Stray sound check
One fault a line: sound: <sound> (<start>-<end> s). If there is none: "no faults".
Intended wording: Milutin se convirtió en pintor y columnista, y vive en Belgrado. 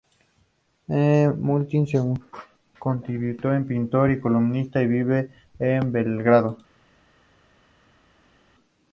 no faults